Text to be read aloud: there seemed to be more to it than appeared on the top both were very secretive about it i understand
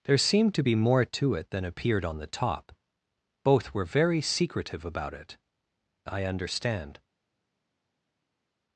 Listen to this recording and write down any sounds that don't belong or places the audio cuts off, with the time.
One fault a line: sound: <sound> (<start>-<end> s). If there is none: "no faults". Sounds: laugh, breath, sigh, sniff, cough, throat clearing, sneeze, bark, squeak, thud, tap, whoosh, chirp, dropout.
no faults